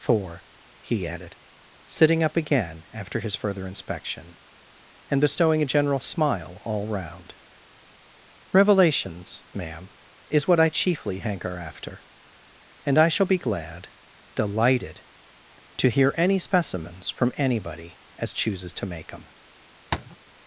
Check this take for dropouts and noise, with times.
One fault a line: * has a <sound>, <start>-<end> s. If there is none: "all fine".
* has a tap, 19.9-20.2 s